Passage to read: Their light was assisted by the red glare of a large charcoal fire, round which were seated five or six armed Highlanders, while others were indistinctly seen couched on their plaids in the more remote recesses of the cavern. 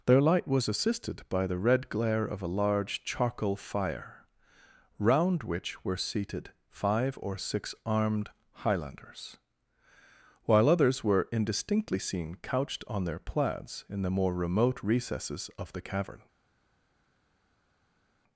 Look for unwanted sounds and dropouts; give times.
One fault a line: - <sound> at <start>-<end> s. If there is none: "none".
none